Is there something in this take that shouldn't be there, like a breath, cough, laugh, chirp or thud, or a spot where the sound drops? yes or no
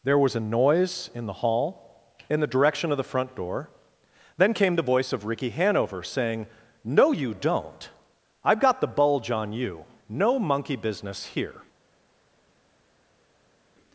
no